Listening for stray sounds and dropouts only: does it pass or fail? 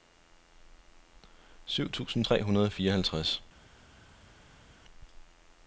pass